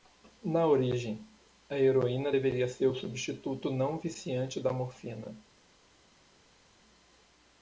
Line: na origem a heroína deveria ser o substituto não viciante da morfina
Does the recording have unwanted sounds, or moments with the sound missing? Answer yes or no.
no